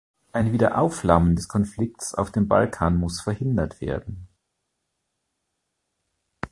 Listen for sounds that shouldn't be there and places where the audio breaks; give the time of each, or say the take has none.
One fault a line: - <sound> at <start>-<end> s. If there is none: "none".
none